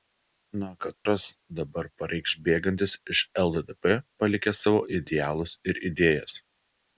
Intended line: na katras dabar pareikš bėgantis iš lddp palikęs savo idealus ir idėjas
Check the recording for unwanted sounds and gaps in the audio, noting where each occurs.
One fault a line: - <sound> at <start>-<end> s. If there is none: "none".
- dropout at 0.9-1.1 s